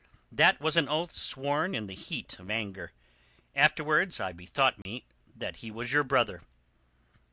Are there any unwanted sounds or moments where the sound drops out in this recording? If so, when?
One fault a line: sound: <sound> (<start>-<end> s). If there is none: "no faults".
sound: dropout (4.8-4.9 s)